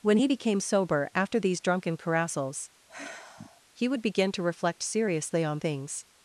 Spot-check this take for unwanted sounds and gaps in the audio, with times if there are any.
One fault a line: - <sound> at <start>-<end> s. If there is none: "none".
- sigh at 2.9-3.6 s